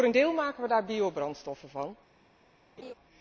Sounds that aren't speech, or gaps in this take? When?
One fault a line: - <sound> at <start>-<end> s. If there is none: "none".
- laugh at 2.8-2.9 s